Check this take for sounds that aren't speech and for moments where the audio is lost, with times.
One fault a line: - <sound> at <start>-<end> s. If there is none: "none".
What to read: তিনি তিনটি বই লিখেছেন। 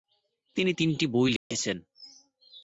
- dropout at 1.4-1.5 s